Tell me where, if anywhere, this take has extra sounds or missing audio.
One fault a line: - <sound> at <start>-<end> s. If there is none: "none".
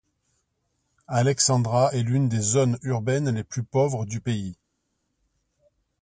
none